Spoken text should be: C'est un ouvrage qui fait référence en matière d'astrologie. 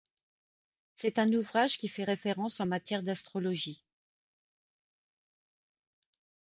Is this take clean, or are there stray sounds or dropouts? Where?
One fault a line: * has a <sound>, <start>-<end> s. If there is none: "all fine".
all fine